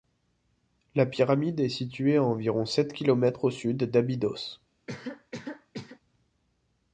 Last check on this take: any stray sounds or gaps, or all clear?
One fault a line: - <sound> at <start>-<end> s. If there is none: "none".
- cough at 4.9-6.0 s